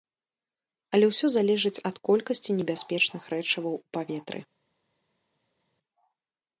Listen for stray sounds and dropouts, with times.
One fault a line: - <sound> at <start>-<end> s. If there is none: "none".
none